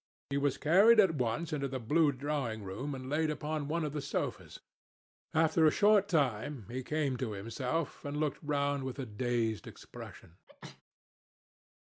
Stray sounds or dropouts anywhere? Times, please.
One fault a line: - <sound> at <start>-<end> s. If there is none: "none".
- sneeze at 10.5-10.8 s